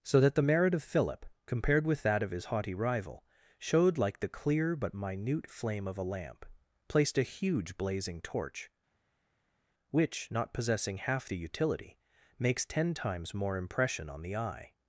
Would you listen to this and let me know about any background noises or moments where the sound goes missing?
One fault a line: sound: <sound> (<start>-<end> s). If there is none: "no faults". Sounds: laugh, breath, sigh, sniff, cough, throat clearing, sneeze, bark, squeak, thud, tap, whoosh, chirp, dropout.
no faults